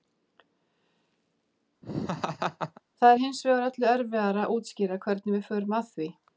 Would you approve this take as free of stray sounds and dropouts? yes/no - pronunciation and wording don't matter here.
no